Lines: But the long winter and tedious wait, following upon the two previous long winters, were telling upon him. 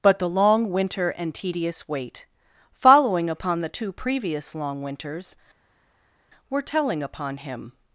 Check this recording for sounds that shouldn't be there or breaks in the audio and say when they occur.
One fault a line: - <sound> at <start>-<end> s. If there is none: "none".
none